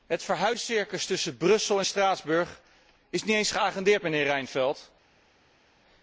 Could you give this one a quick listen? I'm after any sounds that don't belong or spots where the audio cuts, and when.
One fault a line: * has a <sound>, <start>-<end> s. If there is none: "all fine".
all fine